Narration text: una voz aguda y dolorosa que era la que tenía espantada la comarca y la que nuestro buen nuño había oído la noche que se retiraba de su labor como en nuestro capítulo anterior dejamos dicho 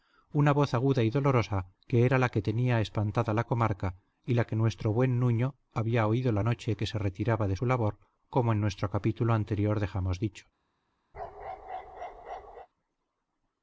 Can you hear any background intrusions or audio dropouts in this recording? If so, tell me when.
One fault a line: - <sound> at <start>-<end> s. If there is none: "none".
- bark at 11.1-12.7 s